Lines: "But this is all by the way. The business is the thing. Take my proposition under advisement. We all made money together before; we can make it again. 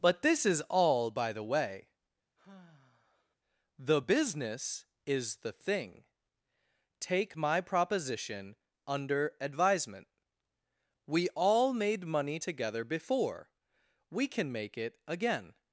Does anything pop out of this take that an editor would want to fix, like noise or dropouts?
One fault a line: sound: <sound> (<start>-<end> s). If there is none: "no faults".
sound: sigh (2.4-3.4 s)